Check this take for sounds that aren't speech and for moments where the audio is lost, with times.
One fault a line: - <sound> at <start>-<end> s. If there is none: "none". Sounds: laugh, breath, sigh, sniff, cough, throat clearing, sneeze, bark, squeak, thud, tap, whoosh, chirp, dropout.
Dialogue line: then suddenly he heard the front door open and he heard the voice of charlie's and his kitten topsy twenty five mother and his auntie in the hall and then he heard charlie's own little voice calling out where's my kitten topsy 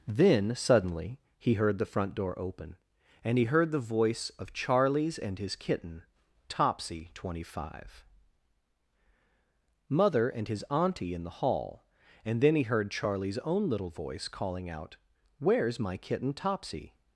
none